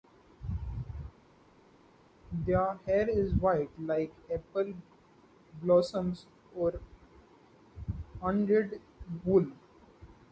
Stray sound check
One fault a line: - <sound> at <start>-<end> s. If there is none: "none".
none